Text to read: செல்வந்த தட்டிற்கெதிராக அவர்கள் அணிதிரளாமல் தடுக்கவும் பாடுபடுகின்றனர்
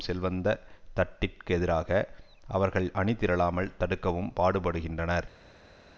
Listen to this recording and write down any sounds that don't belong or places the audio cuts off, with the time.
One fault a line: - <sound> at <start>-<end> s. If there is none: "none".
none